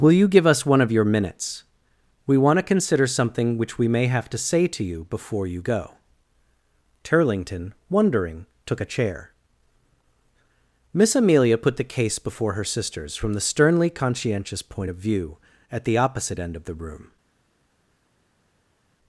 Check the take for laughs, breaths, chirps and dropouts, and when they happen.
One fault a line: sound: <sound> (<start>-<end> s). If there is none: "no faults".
no faults